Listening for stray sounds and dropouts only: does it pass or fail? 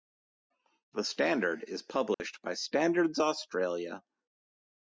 fail